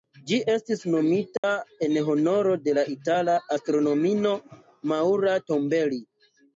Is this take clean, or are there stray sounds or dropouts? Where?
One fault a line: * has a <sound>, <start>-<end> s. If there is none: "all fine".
* has a dropout, 1.4-1.4 s